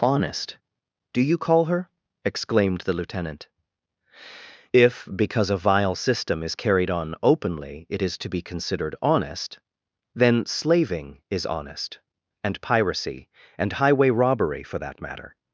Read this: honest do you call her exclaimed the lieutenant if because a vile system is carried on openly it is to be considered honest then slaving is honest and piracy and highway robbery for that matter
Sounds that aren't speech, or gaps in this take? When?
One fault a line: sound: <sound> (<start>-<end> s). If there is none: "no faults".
no faults